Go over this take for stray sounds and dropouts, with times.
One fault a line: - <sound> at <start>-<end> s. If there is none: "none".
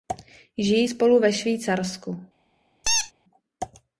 - squeak at 2.8-3.1 s